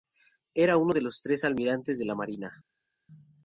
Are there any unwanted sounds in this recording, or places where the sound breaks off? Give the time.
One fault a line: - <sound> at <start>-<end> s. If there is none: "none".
none